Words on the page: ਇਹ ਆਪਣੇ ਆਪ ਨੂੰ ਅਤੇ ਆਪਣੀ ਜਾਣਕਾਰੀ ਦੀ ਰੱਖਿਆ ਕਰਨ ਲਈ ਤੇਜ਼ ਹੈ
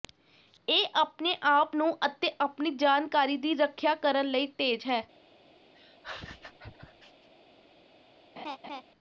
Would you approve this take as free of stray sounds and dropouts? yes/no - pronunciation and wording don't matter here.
no